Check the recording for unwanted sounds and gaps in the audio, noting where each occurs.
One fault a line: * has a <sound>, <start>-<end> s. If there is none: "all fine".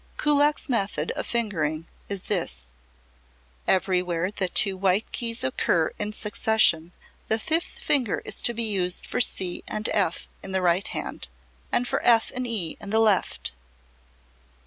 all fine